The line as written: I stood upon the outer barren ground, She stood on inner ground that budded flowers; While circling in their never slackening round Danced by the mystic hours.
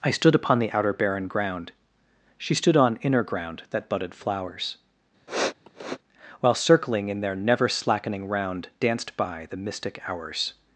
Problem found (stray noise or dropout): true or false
true